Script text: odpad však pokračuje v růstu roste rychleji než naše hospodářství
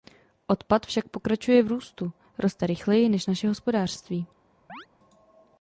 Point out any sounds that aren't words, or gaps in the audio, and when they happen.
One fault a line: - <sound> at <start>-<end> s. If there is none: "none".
- chirp at 4.7-4.9 s